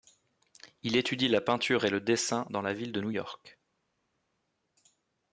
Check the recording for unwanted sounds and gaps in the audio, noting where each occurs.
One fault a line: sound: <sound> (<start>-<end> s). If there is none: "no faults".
no faults